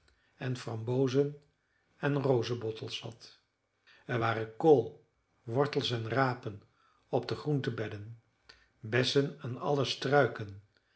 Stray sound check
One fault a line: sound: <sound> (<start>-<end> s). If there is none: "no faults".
no faults